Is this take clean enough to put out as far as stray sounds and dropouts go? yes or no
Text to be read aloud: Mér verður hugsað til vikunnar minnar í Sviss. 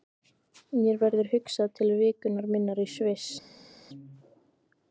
yes